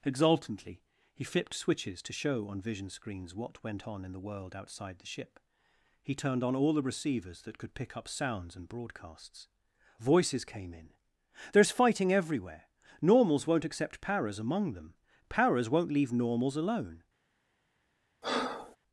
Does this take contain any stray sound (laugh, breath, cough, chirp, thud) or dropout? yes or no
yes